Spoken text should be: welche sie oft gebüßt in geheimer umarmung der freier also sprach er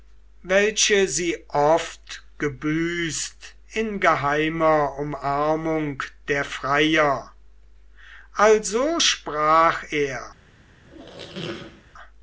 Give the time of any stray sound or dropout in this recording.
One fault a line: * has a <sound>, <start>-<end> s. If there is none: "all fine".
* has a squeak, 10.8-11.8 s